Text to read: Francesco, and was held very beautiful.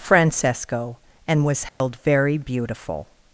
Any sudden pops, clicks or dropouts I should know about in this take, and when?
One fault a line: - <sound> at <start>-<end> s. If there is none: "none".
- dropout at 1.7-1.8 s